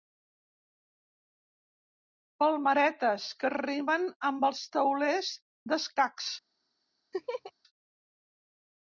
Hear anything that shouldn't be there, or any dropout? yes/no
yes